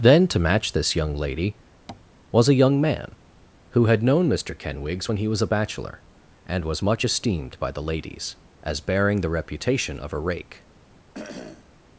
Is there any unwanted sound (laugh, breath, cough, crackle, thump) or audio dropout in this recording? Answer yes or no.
yes